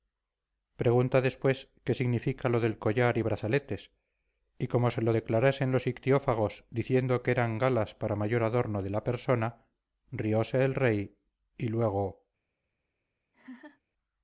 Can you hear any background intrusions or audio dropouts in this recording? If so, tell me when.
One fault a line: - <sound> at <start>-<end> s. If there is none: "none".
- laugh at 13.3-13.8 s